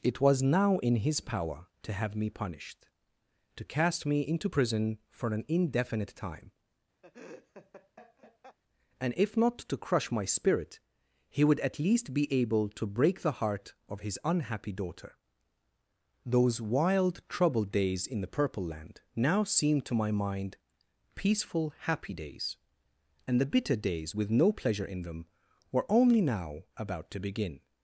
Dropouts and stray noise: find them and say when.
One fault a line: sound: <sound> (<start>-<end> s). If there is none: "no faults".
sound: laugh (7.0-8.6 s)